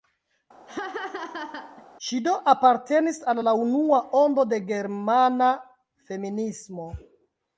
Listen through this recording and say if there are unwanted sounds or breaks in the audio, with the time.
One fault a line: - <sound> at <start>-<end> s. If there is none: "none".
- laugh at 0.7-1.9 s